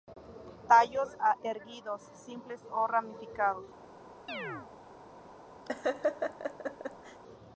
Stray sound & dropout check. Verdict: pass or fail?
fail